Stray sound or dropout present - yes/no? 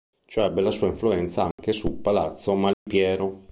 yes